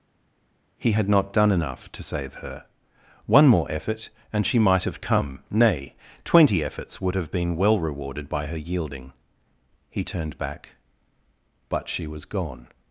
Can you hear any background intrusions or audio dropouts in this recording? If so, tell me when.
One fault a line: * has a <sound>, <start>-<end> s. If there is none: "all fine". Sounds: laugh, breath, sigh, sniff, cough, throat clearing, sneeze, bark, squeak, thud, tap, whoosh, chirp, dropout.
all fine